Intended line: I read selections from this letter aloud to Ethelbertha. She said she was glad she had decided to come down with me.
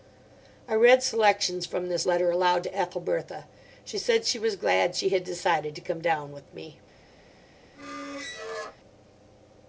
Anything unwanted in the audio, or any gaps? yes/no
yes